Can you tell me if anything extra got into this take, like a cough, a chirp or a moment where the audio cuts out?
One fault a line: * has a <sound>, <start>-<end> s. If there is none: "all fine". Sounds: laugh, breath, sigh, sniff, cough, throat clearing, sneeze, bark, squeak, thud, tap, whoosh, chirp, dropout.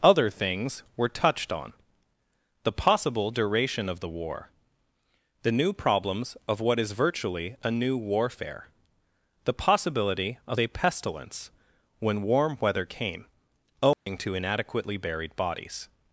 * has a dropout, 13.9-14.1 s